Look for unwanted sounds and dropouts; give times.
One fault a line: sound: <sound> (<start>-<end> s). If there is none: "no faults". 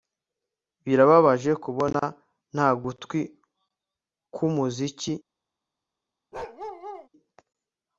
sound: bark (6.3-7.1 s)